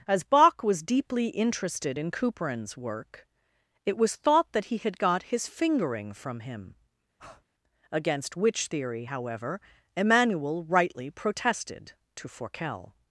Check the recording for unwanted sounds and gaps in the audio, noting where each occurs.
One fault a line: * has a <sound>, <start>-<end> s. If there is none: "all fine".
* has a breath, 7.2-7.4 s